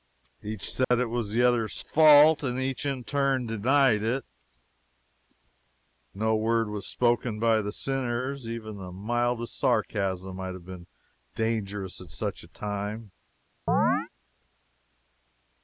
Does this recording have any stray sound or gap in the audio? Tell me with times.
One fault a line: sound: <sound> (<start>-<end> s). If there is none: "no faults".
sound: dropout (0.8-0.9 s)
sound: chirp (13.7-14.1 s)